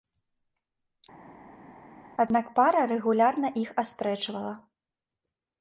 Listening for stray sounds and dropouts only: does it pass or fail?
pass